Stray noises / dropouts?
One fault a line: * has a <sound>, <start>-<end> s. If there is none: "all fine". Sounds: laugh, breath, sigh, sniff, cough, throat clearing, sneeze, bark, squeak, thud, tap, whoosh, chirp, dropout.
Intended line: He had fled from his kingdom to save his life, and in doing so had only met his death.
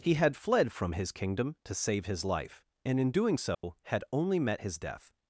* has a dropout, 3.5-3.6 s